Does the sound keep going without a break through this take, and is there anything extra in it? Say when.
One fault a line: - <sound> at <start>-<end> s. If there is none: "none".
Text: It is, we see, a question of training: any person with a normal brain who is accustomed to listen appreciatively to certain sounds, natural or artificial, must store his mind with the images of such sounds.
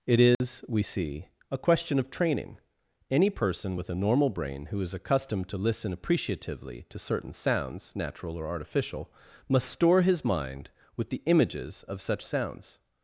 - dropout at 0.3-0.4 s